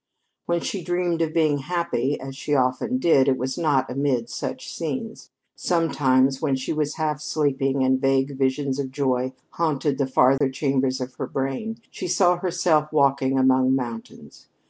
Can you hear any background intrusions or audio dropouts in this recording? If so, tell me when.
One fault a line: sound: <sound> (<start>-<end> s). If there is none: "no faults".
sound: dropout (10.4-10.4 s)